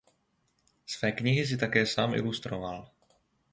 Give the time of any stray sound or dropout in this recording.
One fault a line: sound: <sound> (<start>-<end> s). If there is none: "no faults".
no faults